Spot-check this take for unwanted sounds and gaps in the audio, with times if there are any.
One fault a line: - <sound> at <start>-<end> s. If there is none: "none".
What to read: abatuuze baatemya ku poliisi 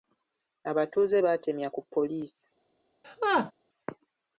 - laugh at 3.0-3.5 s